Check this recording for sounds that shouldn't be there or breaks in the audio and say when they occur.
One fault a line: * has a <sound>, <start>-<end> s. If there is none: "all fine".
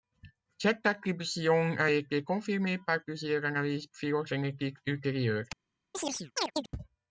* has a chirp, 5.9-6.7 s